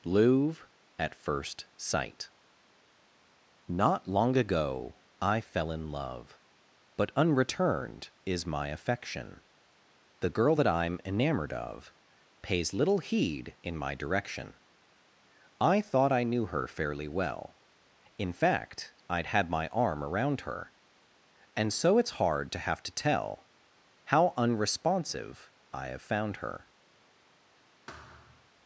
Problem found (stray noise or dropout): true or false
true